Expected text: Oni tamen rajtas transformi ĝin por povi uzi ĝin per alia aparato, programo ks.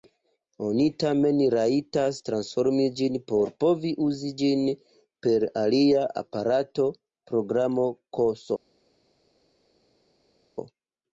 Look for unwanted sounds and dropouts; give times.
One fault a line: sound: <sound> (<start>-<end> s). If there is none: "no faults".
no faults